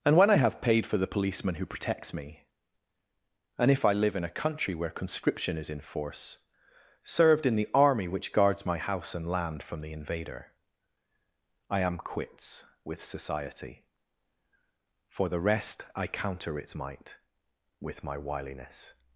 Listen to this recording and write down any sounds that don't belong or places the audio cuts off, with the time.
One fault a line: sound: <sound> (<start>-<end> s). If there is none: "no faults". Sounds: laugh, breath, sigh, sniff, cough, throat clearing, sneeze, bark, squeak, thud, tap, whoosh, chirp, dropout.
no faults